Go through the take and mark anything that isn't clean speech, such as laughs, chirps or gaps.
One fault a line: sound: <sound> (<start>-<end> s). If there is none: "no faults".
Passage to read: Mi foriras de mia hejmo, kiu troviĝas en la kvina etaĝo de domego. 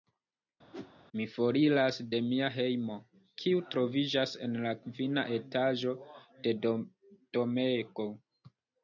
sound: whoosh (0.7-0.9 s)